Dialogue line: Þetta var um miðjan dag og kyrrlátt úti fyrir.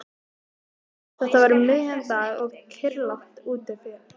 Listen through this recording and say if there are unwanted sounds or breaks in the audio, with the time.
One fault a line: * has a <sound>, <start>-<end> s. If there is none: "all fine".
all fine